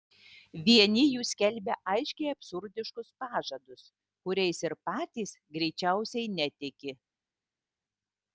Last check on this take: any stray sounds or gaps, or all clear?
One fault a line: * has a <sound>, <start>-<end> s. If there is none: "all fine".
all fine